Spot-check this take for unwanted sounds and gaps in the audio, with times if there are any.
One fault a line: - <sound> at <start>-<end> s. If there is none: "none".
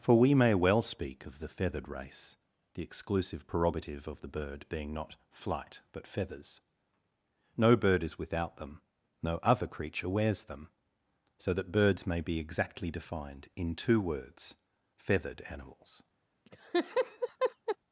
- laugh at 16.5-17.8 s